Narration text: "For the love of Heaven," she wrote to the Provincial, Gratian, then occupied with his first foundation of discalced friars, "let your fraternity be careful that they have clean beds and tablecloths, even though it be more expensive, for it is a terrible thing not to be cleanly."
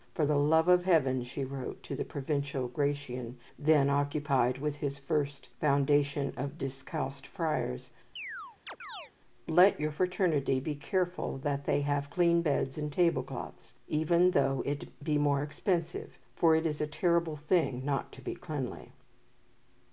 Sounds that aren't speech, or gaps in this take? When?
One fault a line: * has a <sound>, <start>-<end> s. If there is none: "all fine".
* has a chirp, 8.2-9.1 s